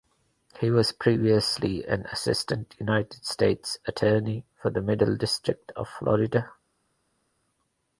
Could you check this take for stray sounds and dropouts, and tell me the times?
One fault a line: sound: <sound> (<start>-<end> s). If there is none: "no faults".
no faults